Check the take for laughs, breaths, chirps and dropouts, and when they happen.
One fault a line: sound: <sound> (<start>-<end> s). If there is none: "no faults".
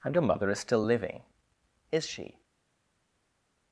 no faults